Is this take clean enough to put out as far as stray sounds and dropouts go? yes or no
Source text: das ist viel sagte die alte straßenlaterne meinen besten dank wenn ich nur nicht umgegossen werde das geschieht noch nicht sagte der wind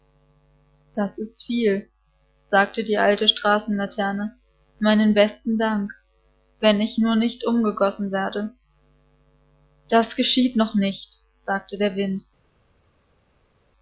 yes